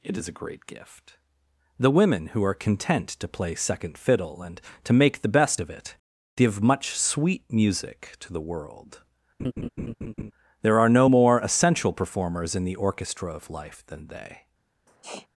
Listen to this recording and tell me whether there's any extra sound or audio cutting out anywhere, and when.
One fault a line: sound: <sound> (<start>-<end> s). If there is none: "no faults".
sound: laugh (9.4-10.3 s)
sound: sniff (14.9-15.3 s)